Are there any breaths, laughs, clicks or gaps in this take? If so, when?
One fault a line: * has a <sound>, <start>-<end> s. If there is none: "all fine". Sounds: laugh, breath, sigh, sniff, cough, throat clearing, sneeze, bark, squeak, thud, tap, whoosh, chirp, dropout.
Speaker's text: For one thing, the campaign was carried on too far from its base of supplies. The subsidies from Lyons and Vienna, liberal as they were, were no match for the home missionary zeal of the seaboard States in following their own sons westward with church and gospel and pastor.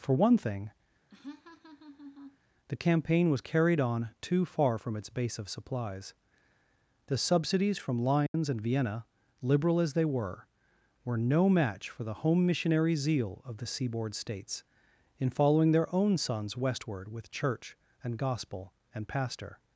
* has a laugh, 1.1-2.4 s
* has a dropout, 8.3-8.3 s